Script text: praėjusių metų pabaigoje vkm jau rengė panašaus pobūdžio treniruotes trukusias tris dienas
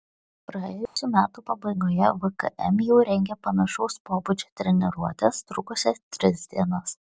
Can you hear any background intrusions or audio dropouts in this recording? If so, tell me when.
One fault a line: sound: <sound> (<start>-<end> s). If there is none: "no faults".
sound: dropout (0.9-1.0 s)